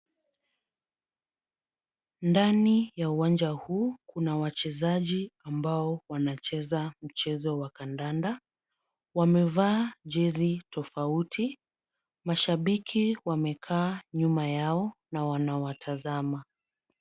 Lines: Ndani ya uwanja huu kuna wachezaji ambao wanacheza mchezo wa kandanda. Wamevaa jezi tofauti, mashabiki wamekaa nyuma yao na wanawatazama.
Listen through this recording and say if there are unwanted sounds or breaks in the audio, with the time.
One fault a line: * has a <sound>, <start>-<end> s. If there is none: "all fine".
all fine